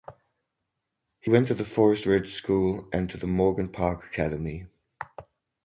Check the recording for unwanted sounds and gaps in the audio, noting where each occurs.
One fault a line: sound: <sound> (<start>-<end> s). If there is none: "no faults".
no faults